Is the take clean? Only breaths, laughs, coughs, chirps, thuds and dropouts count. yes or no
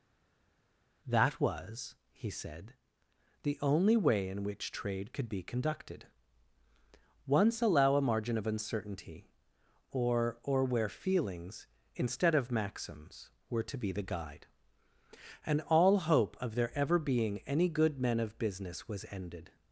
yes